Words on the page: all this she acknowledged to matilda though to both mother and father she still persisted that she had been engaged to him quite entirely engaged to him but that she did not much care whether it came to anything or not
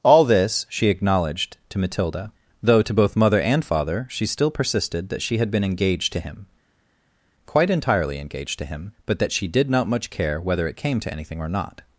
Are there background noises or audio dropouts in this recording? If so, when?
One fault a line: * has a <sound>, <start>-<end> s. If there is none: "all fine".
all fine